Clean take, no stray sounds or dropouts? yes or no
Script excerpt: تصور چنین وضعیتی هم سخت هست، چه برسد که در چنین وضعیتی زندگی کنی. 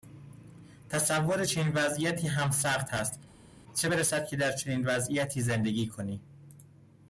yes